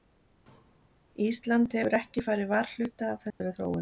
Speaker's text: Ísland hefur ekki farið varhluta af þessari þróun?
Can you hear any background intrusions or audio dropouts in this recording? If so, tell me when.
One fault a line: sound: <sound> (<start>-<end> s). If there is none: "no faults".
sound: dropout (3.3-3.4 s)